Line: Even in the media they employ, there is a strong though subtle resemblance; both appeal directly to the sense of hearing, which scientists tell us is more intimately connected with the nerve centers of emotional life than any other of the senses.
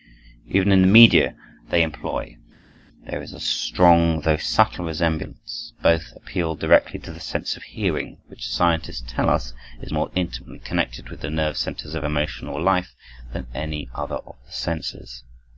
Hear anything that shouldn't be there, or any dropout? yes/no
no